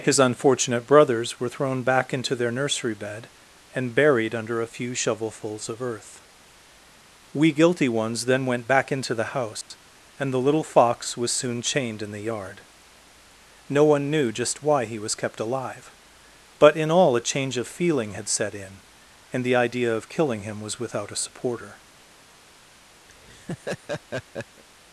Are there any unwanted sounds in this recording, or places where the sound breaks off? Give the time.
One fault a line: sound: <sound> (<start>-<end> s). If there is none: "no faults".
sound: dropout (9.6-9.7 s)
sound: laugh (23.1-24.6 s)